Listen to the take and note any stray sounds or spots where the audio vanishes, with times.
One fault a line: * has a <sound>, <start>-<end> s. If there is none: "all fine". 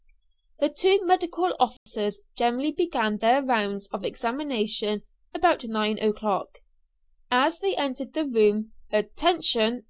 * has a dropout, 1.8-1.9 s